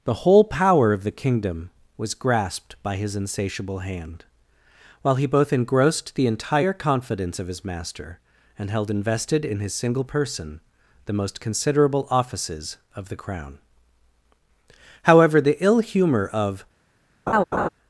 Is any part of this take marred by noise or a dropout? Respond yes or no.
yes